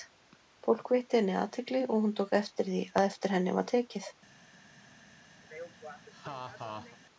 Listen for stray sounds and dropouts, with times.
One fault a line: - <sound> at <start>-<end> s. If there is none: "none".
- laugh at 5.4-7.0 s